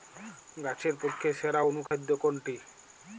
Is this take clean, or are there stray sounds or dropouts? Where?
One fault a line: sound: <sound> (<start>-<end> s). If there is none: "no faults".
sound: dropout (1.9-1.9 s)